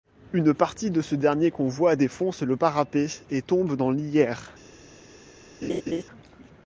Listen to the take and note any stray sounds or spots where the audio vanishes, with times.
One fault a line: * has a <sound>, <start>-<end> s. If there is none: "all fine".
* has a laugh, 5.6-6.0 s